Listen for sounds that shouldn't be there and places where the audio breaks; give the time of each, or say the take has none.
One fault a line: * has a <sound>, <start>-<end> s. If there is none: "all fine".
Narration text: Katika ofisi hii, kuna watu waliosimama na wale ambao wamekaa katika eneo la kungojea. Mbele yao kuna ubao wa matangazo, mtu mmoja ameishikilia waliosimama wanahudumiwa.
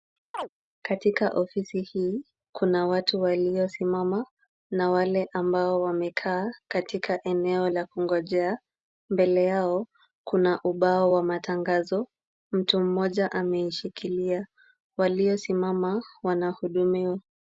* has a chirp, 0.3-0.5 s